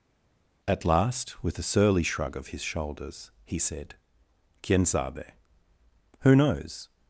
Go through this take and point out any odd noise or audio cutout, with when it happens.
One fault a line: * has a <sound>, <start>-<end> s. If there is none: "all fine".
all fine